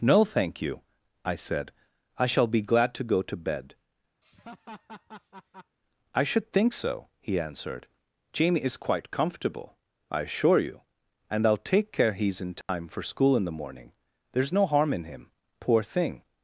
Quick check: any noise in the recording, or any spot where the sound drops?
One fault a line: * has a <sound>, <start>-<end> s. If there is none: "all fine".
* has a laugh, 4.2-5.8 s
* has a dropout, 12.6-12.7 s